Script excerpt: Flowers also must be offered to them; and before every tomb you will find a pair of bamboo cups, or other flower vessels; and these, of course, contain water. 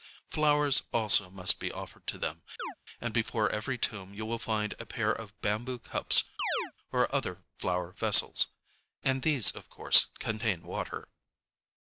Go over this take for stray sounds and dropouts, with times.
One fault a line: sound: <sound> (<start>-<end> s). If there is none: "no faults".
sound: chirp (2.6-2.8 s)
sound: chirp (6.4-6.7 s)